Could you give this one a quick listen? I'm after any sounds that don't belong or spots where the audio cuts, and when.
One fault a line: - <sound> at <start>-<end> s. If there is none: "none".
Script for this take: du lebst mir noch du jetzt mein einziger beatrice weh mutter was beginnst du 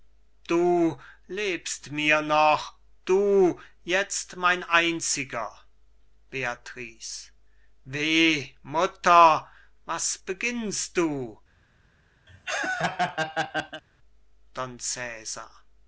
- laugh at 12.3-13.8 s